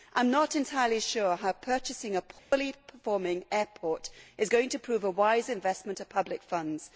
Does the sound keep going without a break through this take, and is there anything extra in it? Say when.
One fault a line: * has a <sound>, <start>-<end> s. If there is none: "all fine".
* has a dropout, 2.4-2.5 s